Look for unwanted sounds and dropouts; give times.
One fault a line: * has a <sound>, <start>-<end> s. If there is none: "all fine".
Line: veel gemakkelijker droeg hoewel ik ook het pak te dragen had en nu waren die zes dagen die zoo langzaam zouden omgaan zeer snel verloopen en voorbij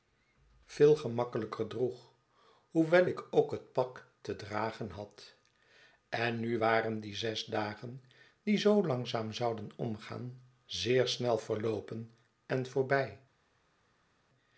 all fine